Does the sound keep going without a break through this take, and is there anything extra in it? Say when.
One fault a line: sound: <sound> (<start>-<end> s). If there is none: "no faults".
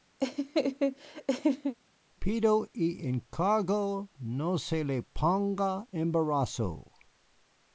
sound: laugh (0.2-1.7 s)